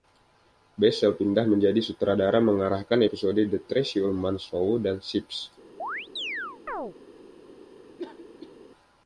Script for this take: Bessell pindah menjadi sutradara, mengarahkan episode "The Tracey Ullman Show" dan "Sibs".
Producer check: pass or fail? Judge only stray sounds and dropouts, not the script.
fail